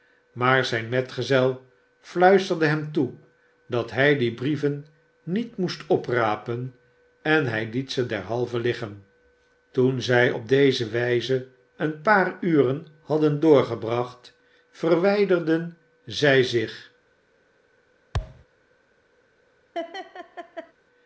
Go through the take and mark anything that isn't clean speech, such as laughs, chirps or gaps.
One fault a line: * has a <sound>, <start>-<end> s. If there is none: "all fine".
* has a thud, 18.1-18.4 s
* has a laugh, 19.7-20.7 s